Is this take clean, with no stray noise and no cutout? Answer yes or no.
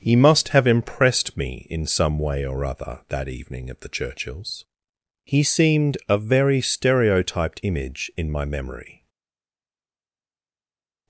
yes